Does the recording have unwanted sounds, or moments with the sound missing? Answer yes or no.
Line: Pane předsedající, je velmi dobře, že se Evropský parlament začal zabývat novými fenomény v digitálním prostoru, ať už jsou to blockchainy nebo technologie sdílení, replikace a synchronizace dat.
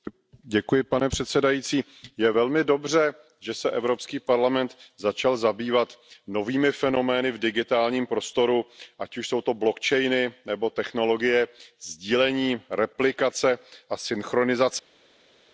no